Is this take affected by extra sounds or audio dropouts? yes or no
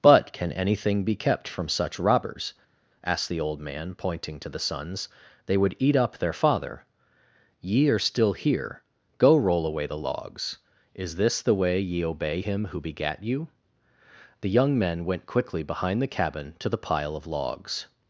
no